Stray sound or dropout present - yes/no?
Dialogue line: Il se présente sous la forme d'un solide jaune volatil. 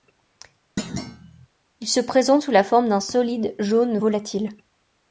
yes